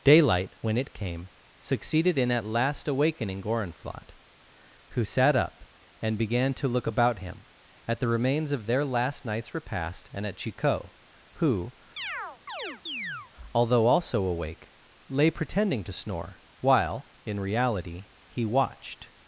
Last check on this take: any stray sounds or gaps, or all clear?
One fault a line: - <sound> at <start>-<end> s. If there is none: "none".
- chirp at 12.0-13.3 s